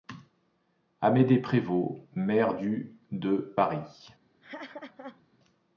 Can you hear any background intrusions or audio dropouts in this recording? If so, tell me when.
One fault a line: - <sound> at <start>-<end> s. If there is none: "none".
- laugh at 4.4-5.2 s